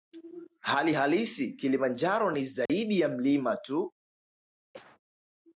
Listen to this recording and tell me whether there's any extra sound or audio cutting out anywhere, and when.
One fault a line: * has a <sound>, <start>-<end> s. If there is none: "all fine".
* has a dropout, 2.7-2.7 s
* has a cough, 4.7-5.0 s